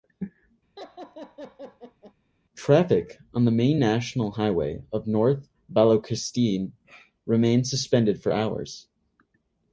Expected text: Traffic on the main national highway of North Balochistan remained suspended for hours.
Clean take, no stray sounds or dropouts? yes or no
no